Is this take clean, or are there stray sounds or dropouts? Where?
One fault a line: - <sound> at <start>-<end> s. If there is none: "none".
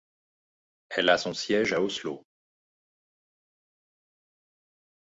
none